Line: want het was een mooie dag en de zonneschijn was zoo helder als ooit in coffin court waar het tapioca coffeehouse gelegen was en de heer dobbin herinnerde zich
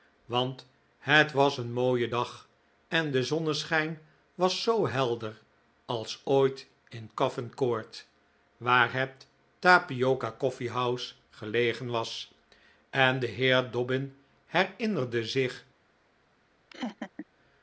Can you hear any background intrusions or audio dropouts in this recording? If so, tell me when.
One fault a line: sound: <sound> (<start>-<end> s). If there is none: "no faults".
sound: laugh (16.7-17.3 s)